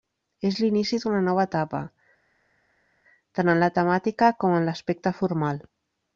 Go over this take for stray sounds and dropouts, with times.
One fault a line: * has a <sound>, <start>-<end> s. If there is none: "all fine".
all fine